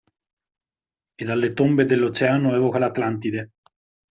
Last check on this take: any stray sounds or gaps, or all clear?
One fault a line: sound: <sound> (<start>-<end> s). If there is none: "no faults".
no faults